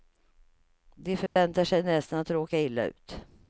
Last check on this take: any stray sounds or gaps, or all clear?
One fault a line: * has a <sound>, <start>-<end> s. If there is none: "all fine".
* has a dropout, 1.3-1.4 s